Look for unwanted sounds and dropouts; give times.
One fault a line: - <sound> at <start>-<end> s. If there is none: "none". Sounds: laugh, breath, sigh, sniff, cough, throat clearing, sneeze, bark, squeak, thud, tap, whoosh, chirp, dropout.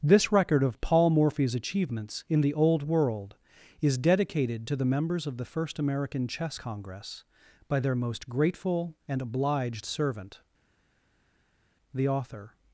none